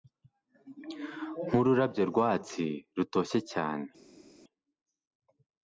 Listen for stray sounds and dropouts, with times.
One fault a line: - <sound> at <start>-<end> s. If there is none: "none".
none